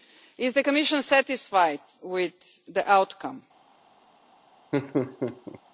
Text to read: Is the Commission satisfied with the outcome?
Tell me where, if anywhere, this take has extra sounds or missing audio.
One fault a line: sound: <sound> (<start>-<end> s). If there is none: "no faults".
sound: laugh (4.7-5.6 s)